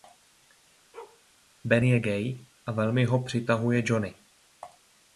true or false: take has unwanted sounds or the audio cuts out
true